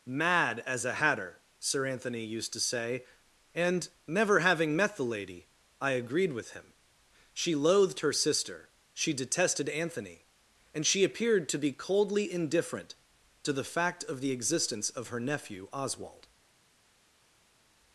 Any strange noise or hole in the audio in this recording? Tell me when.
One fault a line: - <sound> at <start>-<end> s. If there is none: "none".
none